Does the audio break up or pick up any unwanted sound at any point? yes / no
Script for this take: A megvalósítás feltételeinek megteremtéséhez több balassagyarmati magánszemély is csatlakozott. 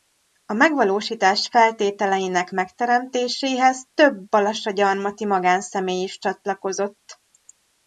no